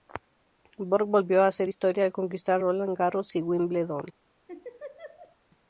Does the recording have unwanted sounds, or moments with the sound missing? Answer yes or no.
yes